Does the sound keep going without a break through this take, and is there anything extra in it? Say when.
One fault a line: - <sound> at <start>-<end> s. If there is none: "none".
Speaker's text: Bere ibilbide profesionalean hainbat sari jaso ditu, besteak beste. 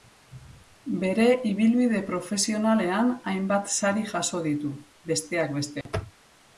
- dropout at 5.8-5.9 s